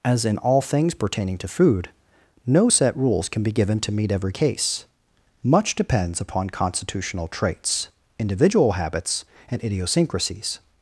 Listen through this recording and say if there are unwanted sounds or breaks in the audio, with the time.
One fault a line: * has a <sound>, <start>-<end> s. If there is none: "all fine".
all fine